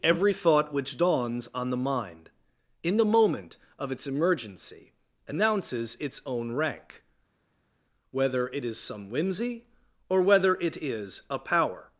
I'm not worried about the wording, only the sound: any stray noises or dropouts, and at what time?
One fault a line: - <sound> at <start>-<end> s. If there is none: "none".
none